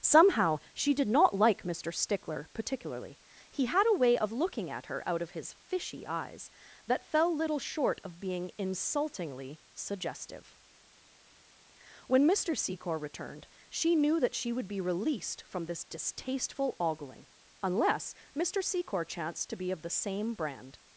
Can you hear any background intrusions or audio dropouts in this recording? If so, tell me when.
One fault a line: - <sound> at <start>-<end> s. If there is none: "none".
none